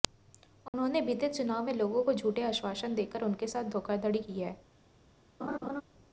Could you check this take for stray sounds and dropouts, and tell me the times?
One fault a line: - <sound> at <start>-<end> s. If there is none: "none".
- dropout at 0.7-0.7 s
- laugh at 5.4-5.8 s